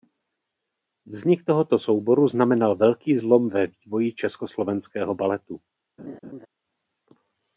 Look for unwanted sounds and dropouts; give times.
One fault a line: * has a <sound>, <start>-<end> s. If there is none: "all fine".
* has a laugh, 6.0-6.5 s